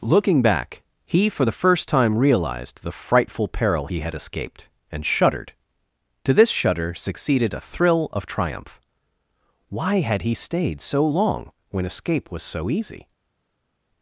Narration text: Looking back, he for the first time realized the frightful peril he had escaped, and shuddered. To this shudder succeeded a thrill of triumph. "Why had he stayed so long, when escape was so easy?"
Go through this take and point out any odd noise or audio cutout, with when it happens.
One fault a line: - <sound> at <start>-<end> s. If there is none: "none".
none